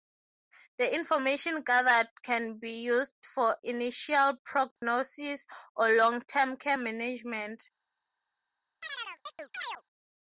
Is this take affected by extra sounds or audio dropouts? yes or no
yes